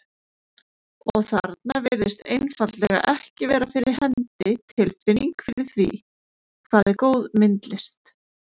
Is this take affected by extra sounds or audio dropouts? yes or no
no